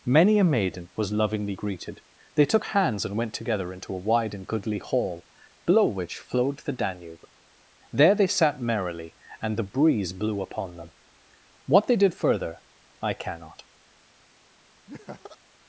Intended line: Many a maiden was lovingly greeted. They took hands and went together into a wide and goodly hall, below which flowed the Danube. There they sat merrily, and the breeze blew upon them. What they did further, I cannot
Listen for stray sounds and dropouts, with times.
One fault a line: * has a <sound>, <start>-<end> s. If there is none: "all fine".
* has a laugh, 14.9-15.4 s